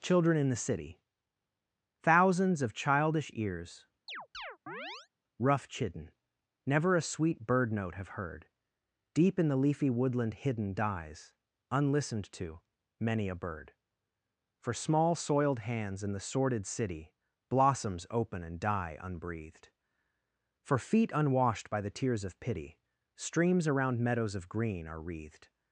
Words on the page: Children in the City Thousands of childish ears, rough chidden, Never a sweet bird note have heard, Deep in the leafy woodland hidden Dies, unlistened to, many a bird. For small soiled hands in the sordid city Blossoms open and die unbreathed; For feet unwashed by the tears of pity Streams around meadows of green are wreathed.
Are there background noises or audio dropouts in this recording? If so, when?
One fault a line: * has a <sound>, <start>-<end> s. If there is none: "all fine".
* has a chirp, 4.1-5.1 s